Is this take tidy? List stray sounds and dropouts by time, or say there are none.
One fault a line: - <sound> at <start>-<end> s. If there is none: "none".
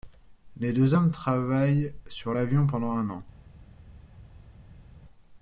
none